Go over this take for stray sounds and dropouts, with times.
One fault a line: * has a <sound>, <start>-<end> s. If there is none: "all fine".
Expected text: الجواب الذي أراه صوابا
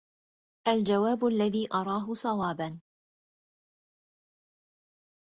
all fine